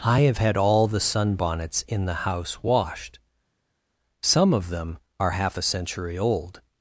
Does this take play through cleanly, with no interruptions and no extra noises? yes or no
yes